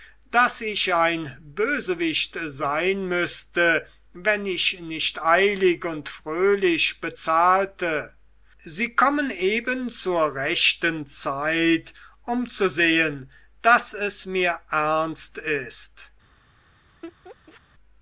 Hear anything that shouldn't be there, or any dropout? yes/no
yes